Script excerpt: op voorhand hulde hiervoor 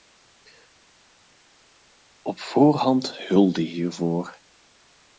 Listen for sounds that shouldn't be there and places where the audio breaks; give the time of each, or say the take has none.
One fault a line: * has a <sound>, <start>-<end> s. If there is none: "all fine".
all fine